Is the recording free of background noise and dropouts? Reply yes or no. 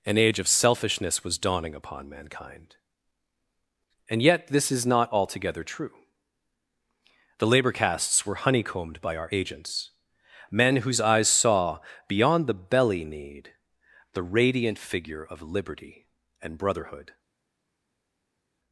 yes